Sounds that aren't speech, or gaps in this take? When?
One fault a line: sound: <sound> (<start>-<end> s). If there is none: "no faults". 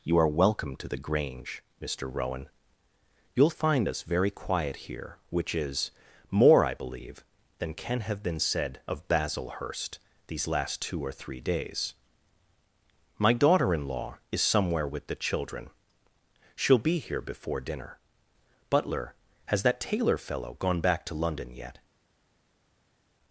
no faults